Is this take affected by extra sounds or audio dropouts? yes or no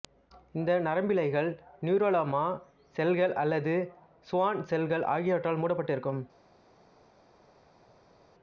no